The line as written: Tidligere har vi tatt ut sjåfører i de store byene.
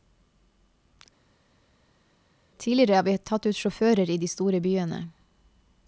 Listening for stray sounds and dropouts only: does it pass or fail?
pass